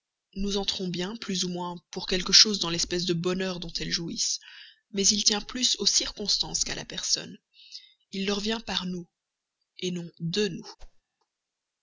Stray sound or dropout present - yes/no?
yes